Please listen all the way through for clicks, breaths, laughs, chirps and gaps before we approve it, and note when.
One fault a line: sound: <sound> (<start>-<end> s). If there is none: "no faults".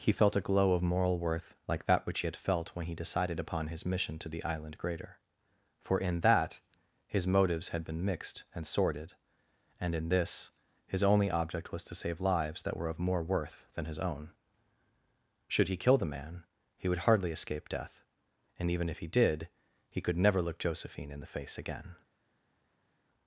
no faults